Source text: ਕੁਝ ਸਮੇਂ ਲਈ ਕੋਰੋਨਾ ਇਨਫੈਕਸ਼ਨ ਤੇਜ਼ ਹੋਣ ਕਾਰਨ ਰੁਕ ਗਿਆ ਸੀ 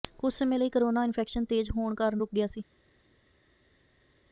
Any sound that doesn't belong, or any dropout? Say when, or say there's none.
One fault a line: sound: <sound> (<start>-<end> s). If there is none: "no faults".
no faults